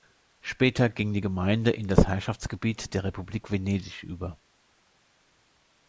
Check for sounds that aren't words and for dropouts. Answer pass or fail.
pass